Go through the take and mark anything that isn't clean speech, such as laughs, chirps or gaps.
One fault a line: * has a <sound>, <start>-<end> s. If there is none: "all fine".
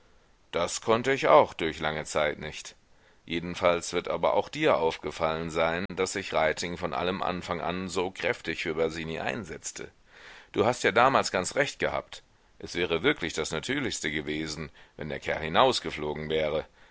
* has a dropout, 5.9-5.9 s